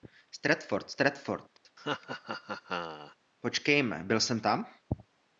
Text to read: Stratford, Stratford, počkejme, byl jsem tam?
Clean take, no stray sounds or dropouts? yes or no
no